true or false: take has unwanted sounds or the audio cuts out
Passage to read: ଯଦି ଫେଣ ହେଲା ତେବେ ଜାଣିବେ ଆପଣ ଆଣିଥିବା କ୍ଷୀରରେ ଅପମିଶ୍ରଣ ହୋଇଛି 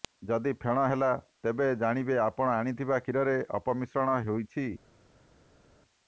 false